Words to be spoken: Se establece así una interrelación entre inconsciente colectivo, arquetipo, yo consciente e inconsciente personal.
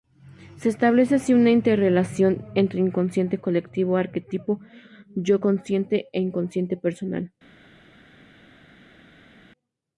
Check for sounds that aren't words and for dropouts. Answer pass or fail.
pass